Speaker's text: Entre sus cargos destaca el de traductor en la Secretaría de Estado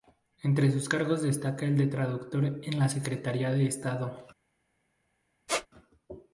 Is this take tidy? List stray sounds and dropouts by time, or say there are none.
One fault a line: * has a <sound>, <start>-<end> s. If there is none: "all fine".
* has a squeak, 5.5-5.7 s